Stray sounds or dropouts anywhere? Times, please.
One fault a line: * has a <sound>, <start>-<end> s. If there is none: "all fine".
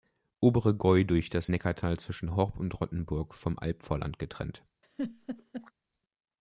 * has a laugh, 4.8-5.7 s